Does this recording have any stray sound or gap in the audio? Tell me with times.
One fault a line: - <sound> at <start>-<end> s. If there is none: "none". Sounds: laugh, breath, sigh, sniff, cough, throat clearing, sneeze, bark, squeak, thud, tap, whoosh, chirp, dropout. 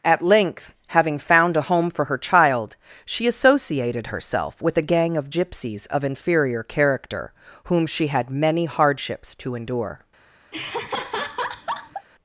- laugh at 10.5-12.1 s